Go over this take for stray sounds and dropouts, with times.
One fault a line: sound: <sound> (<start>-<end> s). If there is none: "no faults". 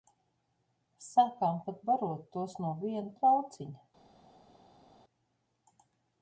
no faults